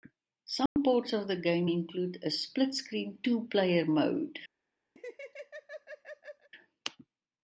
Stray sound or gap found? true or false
true